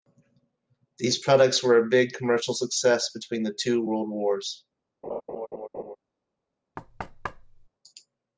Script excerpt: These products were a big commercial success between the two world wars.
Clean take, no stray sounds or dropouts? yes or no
no